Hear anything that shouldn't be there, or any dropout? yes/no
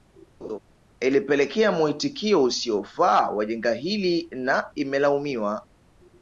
yes